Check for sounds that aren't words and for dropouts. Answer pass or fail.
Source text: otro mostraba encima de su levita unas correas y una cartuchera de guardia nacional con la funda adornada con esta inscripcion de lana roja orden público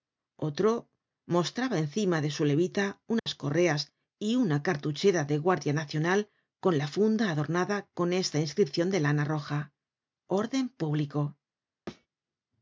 fail